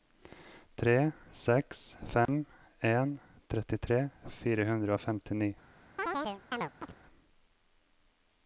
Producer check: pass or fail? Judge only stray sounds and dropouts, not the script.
fail